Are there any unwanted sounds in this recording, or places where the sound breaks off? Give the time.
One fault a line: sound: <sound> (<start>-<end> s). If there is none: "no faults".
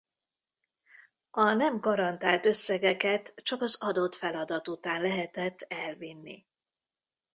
no faults